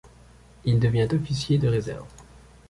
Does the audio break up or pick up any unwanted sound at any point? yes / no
no